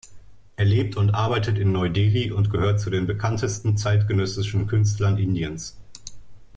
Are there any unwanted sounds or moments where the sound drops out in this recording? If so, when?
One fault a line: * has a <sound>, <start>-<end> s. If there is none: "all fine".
all fine